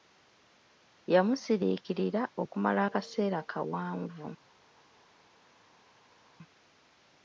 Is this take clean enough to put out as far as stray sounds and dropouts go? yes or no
yes